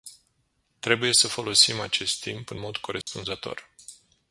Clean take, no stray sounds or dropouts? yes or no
no